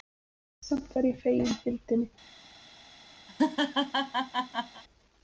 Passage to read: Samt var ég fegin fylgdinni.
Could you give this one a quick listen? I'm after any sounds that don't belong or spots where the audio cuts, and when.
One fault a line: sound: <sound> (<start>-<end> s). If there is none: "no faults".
sound: laugh (3.3-4.8 s)